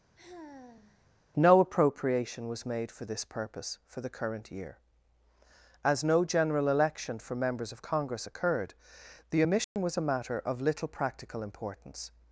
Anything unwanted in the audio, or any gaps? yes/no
yes